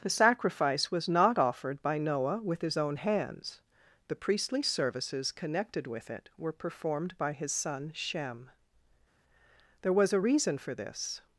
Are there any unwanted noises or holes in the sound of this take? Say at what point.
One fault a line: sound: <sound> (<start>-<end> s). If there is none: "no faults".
no faults